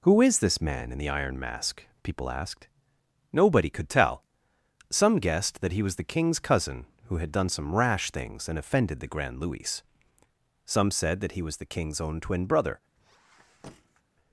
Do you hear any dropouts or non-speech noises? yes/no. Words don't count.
yes